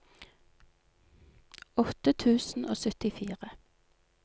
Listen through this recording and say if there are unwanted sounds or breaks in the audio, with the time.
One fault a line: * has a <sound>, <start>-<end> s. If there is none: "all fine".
all fine